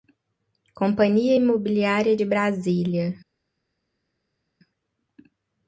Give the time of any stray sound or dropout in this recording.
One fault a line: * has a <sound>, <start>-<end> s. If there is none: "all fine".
all fine